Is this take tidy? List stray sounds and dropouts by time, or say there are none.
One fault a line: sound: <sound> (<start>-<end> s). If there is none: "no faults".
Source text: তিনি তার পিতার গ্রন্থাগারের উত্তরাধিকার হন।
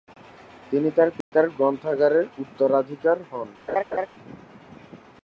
sound: dropout (1.2-1.3 s)
sound: laugh (3.7-4.1 s)